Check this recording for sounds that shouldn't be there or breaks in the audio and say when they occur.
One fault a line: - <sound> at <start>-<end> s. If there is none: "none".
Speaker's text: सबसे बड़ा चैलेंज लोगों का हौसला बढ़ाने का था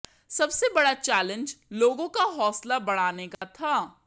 - dropout at 3.3-3.4 s